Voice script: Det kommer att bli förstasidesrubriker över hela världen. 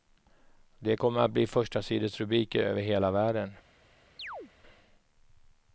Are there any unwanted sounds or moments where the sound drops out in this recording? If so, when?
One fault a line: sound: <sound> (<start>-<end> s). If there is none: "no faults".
sound: chirp (4.2-4.5 s)